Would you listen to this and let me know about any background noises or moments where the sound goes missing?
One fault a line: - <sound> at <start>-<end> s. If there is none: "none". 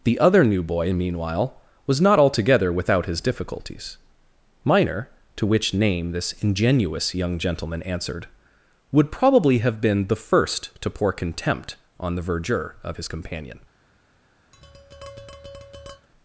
- tap at 14.5-16.1 s